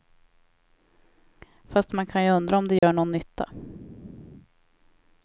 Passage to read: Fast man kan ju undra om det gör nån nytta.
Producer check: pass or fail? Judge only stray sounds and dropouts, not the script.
fail